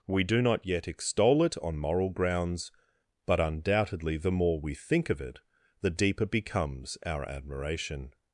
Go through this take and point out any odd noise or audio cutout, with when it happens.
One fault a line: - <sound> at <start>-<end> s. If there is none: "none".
none